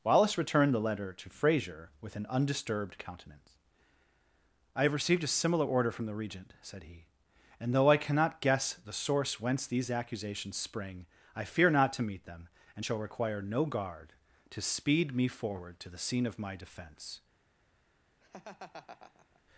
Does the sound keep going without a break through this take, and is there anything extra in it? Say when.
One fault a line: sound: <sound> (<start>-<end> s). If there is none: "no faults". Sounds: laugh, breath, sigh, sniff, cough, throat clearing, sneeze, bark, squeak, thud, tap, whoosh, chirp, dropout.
sound: laugh (18.2-19.4 s)